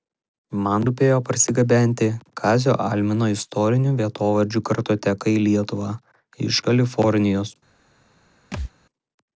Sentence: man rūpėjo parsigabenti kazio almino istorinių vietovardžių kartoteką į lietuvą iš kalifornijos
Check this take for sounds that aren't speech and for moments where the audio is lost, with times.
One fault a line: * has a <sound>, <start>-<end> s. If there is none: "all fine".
* has a thud, 8.5-8.7 s